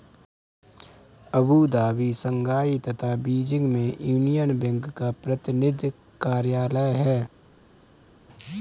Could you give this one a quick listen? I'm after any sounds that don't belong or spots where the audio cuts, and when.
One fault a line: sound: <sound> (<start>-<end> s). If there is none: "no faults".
no faults